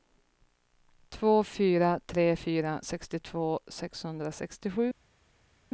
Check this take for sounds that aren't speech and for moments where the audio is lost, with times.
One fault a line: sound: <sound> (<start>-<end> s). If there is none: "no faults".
no faults